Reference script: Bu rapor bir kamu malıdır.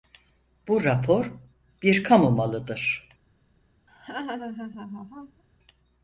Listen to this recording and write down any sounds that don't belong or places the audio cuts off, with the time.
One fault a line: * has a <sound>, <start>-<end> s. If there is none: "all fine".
* has a laugh, 3.9-5.4 s